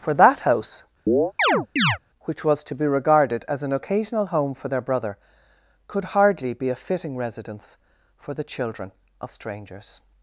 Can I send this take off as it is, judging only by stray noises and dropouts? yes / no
no